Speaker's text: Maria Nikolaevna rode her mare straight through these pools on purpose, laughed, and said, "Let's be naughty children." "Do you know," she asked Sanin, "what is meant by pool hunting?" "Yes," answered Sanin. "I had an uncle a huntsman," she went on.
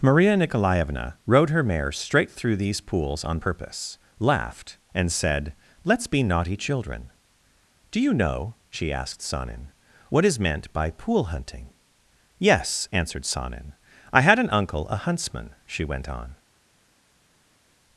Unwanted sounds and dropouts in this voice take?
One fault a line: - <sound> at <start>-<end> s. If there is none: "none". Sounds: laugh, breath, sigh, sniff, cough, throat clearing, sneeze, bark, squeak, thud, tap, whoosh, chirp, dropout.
none